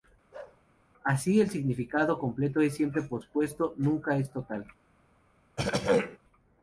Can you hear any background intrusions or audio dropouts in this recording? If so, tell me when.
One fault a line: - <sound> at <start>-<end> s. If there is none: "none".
- bark at 0.3-0.6 s
- throat clearing at 5.6-6.2 s